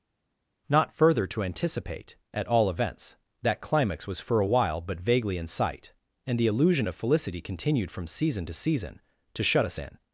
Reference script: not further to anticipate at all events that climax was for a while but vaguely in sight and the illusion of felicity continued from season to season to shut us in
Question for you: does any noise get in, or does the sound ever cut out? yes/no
no